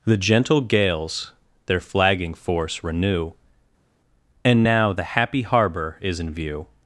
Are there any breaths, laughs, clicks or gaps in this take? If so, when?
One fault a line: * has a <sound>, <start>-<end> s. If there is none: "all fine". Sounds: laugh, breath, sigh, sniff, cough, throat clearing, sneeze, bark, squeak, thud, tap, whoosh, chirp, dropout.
all fine